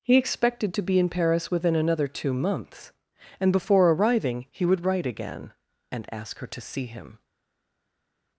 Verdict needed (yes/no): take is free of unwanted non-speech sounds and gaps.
yes